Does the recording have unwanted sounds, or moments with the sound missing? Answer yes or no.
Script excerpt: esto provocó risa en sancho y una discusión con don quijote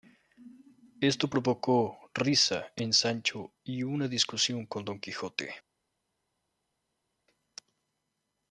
no